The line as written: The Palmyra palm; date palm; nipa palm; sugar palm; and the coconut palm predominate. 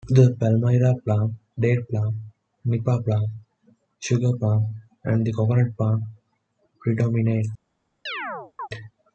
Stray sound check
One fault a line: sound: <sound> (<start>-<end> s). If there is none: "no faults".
sound: chirp (8.1-8.7 s)